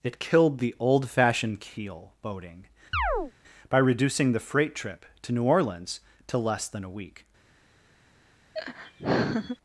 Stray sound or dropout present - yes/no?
yes